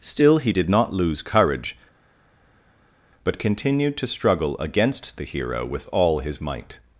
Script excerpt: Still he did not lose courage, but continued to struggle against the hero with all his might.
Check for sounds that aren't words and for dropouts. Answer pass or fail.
pass